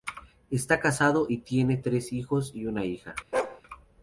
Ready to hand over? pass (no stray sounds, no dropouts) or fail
fail